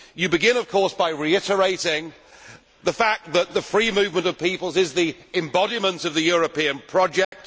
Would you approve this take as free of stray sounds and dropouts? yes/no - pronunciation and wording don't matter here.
no